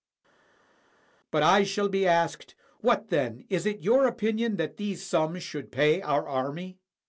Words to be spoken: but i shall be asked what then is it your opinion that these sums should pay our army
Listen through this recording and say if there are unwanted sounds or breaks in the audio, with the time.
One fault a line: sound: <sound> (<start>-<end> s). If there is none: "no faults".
no faults